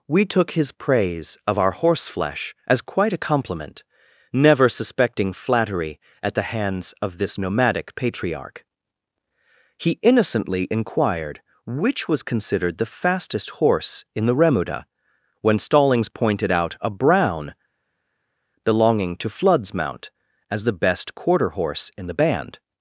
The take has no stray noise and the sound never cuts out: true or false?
true